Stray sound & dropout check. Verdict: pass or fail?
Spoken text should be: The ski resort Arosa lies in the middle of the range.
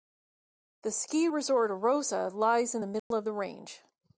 fail